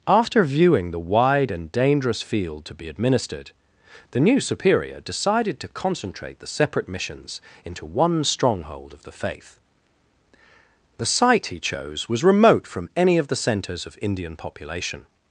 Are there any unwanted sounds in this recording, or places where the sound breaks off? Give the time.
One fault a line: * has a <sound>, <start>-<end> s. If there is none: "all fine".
all fine